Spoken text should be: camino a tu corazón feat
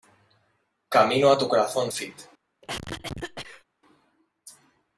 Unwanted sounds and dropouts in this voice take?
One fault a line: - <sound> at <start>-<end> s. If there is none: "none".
- cough at 2.6-3.6 s